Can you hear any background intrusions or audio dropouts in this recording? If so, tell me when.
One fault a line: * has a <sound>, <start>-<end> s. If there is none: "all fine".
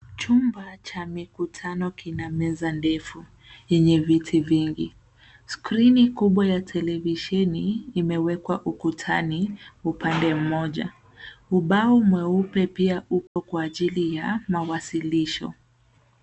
* has a dropout, 13.3-13.4 s